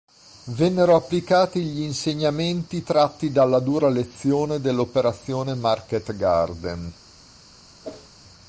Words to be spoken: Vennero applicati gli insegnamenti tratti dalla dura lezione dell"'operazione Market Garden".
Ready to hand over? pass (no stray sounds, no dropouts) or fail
fail